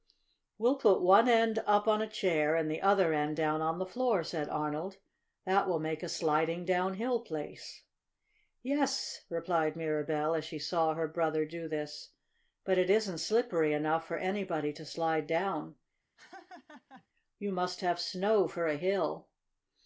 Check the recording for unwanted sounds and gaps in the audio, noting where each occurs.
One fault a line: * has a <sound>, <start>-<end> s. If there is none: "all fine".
* has a laugh, 16.2-17.1 s